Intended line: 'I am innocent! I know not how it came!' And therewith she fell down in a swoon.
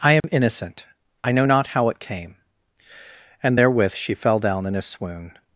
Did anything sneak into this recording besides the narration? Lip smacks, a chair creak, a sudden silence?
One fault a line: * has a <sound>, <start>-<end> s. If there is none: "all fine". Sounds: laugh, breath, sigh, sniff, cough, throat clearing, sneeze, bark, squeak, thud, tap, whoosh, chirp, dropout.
* has a dropout, 0.2-0.2 s